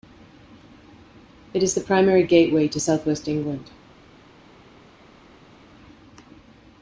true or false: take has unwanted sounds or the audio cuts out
false